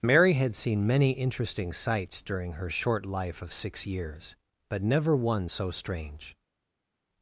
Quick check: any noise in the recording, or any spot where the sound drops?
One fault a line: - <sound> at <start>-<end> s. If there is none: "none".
none